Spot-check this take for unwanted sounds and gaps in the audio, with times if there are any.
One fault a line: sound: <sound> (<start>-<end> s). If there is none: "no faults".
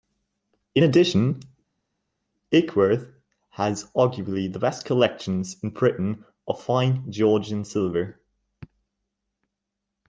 no faults